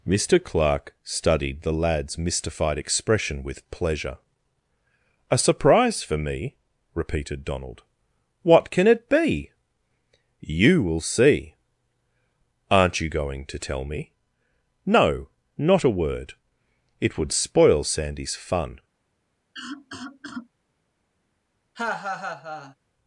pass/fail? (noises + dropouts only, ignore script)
fail